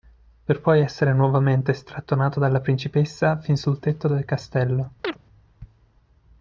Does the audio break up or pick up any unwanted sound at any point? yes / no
yes